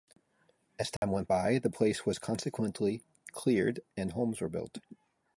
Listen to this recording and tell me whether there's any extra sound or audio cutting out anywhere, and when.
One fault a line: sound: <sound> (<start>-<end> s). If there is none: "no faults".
sound: dropout (1.0-1.0 s)